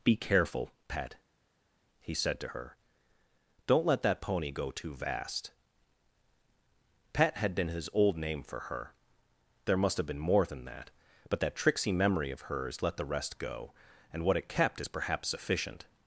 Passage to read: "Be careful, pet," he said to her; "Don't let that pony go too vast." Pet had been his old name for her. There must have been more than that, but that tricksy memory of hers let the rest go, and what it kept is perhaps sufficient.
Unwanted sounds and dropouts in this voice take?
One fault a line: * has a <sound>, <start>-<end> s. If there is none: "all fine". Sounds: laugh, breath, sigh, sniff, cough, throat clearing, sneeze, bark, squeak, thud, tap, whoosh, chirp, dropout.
all fine